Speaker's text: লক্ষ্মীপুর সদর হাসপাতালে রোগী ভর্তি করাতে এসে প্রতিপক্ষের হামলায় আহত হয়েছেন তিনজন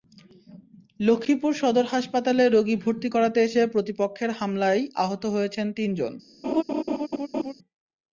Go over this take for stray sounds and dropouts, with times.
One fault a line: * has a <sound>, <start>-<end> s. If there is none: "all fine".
* has a laugh, 6.4-7.5 s